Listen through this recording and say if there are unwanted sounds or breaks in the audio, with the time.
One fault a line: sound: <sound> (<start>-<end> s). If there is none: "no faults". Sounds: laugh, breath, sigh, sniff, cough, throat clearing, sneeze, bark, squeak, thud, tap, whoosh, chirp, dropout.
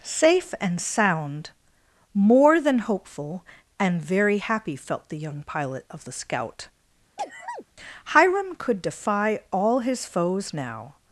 sound: sneeze (7.2-7.7 s)